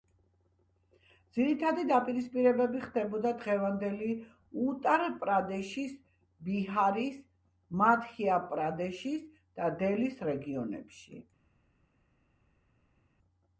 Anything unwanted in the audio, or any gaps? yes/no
no